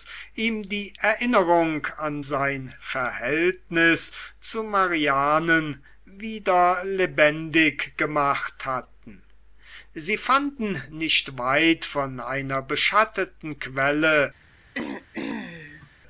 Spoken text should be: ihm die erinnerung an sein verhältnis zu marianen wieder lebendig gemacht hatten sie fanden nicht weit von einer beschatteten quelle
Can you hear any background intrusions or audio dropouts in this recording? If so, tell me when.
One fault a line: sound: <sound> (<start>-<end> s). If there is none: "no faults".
sound: throat clearing (14.7-15.9 s)